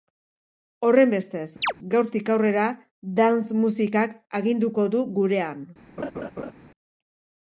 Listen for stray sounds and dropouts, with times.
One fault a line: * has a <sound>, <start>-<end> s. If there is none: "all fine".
* has a chirp, 1.6-1.7 s
* has a laugh, 6.0-6.5 s